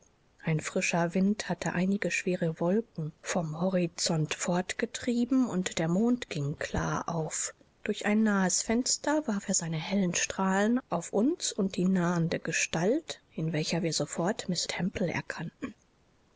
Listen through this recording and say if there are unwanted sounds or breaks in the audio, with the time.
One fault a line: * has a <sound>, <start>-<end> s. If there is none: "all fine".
all fine